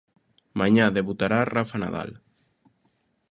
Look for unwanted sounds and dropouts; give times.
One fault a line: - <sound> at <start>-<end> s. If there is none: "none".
none